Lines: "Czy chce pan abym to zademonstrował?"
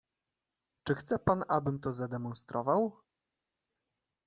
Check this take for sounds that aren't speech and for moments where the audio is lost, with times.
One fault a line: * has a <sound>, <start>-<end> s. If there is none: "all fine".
all fine